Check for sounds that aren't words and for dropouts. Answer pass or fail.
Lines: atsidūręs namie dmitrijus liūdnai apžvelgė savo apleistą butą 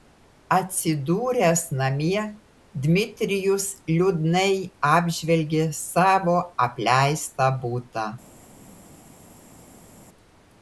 pass